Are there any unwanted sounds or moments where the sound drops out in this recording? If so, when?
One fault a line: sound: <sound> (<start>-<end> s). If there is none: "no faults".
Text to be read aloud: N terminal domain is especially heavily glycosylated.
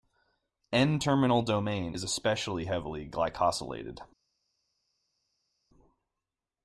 no faults